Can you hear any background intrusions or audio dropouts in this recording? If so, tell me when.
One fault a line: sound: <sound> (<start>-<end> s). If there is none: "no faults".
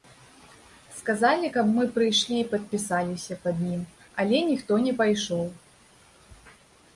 no faults